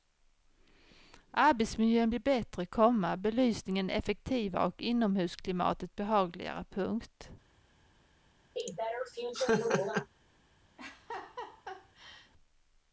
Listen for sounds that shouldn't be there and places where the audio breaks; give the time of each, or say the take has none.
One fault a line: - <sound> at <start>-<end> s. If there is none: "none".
- laugh at 8.6-10.1 s
- laugh at 10.8-12.3 s